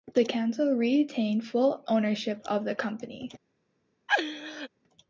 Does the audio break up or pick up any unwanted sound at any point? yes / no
yes